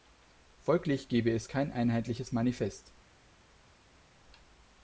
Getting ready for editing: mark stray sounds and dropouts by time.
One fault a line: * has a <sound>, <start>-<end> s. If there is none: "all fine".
all fine